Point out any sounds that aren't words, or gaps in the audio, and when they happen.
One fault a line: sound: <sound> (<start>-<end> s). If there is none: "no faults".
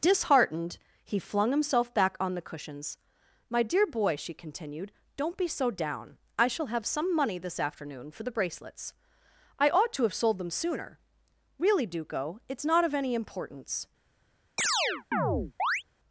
sound: chirp (14.6-15.8 s)